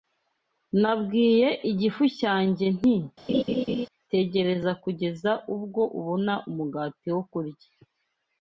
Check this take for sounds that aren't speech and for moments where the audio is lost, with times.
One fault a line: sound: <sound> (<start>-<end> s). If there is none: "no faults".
sound: laugh (3.3-3.9 s)